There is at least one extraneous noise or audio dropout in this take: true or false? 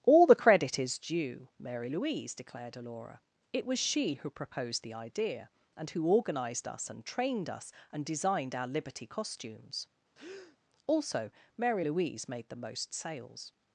true